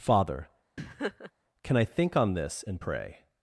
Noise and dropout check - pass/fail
fail